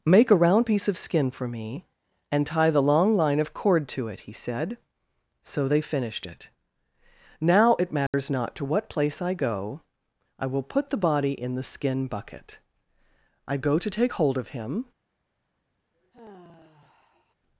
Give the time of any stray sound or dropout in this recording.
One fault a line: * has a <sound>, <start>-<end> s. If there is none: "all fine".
* has a dropout, 8.1-8.1 s
* has a sigh, 15.9-17.4 s